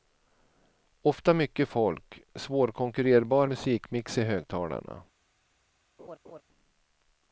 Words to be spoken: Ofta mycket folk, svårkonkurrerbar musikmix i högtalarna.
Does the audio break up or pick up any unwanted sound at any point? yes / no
yes